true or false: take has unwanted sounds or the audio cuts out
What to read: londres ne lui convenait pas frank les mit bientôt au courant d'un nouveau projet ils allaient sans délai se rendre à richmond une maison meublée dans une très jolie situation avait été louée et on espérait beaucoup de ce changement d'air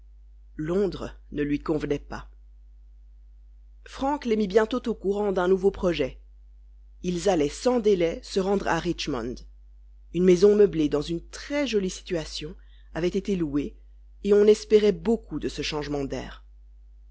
false